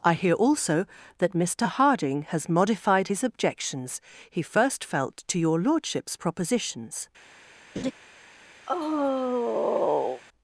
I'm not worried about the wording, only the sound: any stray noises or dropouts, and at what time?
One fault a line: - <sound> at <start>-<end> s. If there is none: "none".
- laugh at 7.8-7.9 s
- sigh at 8.7-10.2 s